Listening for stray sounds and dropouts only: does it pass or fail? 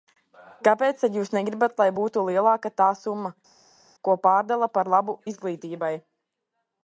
pass